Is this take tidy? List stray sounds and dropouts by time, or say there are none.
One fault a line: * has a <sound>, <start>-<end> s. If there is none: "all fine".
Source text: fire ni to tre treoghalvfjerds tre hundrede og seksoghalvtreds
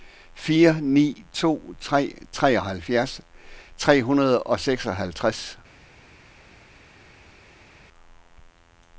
all fine